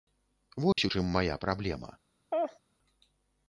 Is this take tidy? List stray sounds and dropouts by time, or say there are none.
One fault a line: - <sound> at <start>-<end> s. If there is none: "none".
- dropout at 0.7-0.8 s
- laugh at 2.3-2.6 s